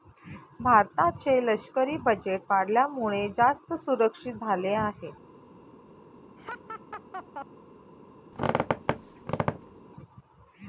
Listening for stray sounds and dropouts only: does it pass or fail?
fail